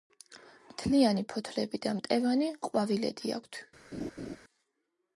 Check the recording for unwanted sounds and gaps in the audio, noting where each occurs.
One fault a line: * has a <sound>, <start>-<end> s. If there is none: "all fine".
* has a laugh, 3.9-4.4 s